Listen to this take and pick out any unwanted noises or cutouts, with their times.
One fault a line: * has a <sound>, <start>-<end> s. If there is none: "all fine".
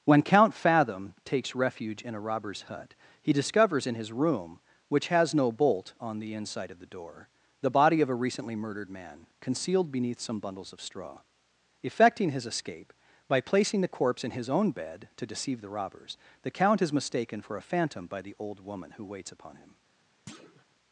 * has a thud, 20.3-20.6 s